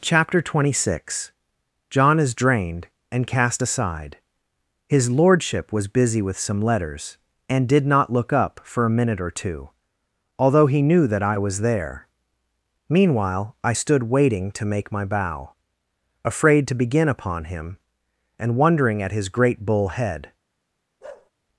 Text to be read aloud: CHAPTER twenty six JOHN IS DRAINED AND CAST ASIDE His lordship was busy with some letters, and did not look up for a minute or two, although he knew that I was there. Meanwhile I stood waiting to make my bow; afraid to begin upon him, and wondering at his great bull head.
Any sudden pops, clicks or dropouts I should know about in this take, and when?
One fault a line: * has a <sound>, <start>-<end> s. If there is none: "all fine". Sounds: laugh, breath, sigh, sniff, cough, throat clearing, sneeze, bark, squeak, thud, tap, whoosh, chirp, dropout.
* has a bark, 21.0-21.3 s